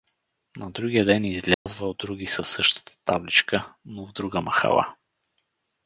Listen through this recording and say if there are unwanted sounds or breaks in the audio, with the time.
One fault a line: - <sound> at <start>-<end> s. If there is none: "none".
- dropout at 1.5-1.7 s